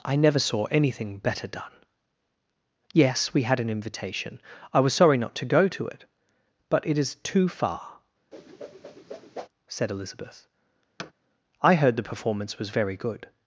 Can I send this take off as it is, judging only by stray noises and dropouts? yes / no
no